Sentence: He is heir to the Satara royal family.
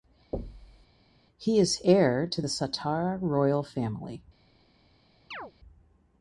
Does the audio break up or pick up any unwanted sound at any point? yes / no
yes